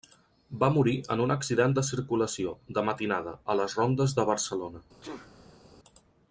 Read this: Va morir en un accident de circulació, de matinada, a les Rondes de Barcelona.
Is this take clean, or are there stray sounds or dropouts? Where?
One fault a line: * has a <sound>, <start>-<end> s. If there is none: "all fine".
* has a sneeze, 5.0-5.6 s